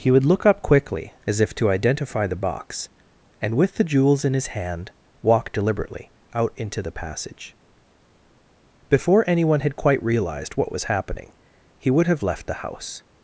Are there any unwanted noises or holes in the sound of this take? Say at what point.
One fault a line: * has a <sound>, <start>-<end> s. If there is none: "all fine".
all fine